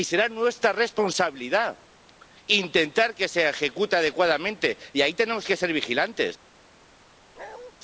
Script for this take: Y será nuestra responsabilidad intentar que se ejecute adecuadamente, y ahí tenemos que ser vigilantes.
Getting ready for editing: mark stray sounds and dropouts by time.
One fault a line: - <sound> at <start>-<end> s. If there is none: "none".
- bark at 7.4-7.7 s